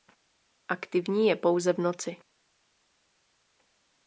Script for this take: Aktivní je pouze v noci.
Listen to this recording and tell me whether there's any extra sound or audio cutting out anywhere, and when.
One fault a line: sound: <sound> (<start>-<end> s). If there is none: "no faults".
no faults